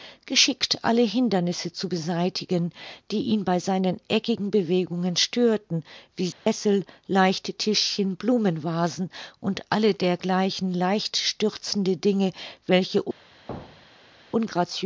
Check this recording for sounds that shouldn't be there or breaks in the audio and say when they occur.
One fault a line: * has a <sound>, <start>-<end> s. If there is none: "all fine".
* has a dropout, 6.3-6.5 s
* has a thud, 13.5-14.2 s